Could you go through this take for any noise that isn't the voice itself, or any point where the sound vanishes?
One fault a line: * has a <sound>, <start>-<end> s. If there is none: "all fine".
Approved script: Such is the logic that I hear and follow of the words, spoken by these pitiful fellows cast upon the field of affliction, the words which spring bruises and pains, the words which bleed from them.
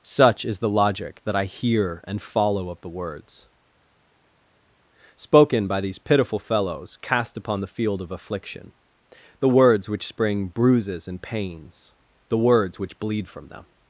all fine